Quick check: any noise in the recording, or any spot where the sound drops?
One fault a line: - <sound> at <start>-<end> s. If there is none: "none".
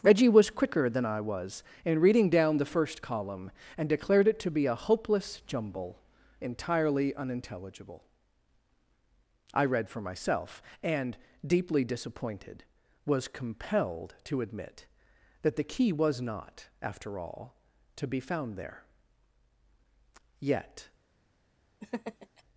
- laugh at 21.8-22.4 s